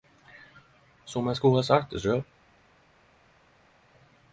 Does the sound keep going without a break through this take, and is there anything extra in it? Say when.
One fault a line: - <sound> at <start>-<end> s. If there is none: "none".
none